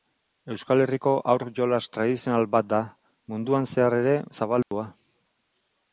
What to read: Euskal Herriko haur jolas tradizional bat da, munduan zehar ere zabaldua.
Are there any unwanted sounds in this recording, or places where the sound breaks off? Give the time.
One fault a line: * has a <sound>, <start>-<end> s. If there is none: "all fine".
* has a dropout, 4.6-4.7 s